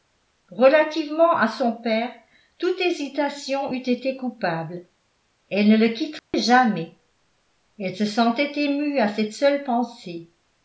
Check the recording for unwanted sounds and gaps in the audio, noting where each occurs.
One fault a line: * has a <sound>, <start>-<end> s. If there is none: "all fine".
* has a dropout, 6.2-6.3 s